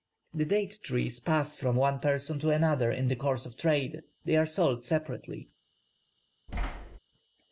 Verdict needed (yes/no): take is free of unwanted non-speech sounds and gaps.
no